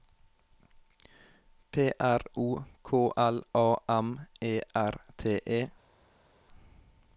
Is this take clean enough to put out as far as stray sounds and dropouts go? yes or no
yes